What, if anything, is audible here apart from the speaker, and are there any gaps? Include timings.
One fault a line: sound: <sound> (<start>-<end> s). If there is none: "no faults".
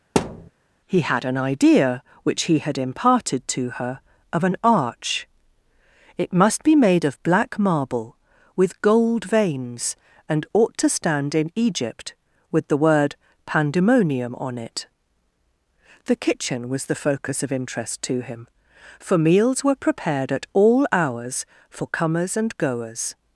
sound: thud (0.2-0.5 s)